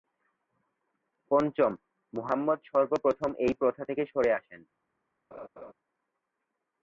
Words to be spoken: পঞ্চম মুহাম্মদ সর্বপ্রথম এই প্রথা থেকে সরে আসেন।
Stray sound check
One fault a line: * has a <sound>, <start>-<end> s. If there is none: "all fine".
* has a laugh, 5.3-5.7 s